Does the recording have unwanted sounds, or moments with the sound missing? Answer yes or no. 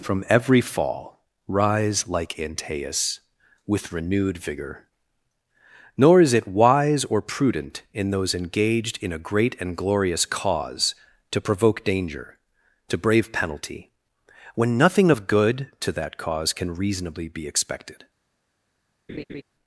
yes